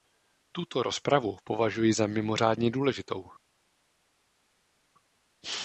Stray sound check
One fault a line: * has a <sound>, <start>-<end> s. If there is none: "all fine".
all fine